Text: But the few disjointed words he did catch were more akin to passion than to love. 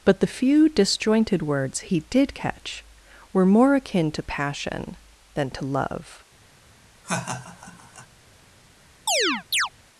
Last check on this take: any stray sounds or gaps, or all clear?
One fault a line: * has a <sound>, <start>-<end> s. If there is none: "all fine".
* has a laugh, 7.0-8.1 s
* has a chirp, 9.1-9.7 s